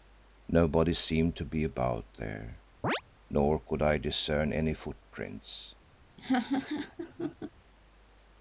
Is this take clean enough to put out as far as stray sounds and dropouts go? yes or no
no